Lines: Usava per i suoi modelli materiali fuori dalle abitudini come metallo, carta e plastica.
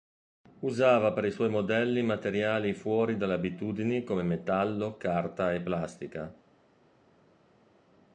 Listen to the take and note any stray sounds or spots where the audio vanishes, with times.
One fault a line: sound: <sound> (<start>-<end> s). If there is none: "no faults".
no faults